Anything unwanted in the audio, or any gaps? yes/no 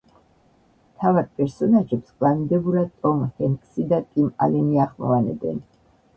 no